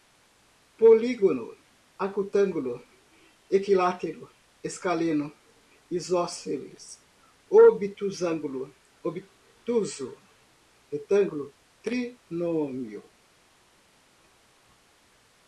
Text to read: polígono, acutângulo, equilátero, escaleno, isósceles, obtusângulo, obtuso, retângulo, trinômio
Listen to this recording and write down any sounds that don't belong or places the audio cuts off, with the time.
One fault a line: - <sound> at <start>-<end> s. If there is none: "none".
none